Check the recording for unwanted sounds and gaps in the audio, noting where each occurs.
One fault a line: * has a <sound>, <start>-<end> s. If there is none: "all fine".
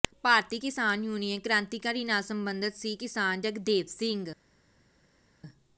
all fine